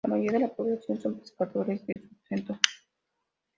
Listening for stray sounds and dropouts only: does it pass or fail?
fail